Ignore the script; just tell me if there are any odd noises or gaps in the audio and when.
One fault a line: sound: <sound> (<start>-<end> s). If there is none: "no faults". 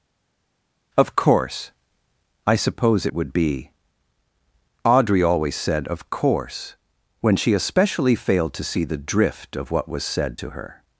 no faults